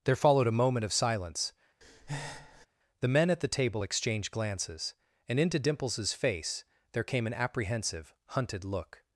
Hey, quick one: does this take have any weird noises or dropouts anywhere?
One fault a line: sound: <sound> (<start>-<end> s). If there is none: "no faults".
sound: breath (1.8-2.7 s)